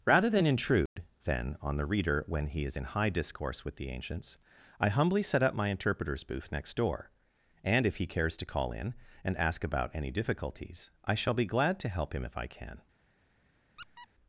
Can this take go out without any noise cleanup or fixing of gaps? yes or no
no